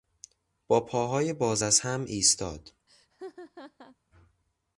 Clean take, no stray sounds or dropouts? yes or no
no